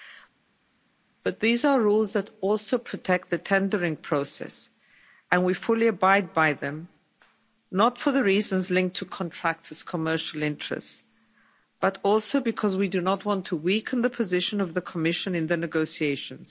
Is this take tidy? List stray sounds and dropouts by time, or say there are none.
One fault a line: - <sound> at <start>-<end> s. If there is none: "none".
none